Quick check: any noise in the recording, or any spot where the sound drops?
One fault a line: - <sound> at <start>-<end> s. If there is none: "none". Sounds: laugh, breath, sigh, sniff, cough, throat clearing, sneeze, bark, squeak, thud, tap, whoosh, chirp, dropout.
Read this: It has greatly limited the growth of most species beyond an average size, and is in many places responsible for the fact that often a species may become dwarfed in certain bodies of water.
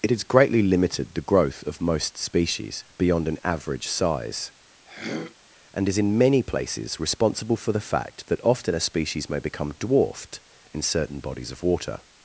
- throat clearing at 4.9-5.4 s